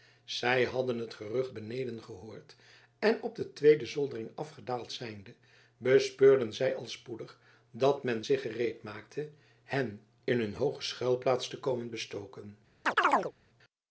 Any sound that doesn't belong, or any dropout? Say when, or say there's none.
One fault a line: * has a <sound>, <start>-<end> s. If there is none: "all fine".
* has a chirp, 12.8-13.3 s